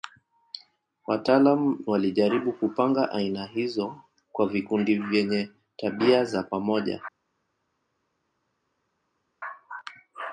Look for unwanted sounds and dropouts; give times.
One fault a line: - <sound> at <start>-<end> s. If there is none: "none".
none